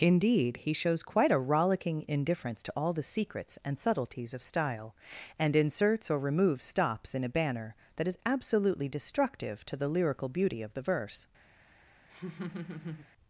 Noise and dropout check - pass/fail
fail